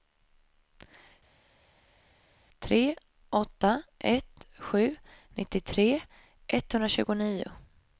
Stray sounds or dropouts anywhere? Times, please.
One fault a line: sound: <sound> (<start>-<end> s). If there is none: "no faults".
no faults